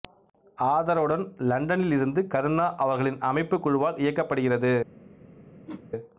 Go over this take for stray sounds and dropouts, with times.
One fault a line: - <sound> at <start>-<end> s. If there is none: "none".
- whoosh at 5.7-5.9 s